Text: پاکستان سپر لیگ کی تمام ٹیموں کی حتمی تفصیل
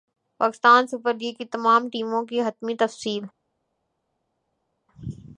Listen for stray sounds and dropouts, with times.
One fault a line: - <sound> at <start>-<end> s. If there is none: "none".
none